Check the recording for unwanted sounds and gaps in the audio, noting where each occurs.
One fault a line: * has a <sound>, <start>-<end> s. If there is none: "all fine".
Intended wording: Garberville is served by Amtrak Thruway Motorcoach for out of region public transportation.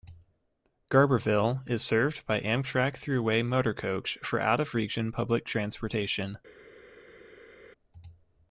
all fine